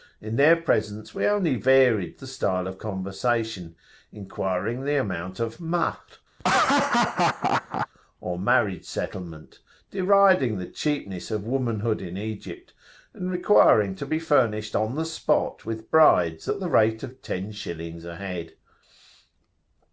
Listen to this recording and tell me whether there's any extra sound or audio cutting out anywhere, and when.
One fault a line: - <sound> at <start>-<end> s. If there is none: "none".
- laugh at 6.4-7.9 s